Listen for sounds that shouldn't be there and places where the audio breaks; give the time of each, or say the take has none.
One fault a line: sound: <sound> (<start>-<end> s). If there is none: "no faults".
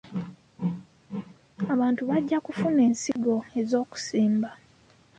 sound: dropout (3.1-3.2 s)